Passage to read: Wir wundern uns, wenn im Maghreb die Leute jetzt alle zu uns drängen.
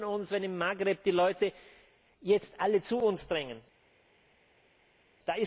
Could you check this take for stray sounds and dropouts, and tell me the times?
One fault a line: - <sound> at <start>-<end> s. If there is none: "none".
none